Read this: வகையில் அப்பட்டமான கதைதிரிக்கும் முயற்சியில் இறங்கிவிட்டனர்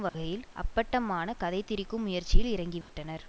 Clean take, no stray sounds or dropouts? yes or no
no